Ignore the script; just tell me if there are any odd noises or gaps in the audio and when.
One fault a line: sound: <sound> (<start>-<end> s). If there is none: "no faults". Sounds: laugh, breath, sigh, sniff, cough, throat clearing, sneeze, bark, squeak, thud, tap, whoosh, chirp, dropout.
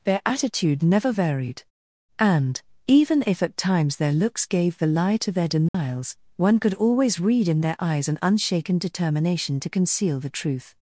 sound: dropout (5.7-5.7 s)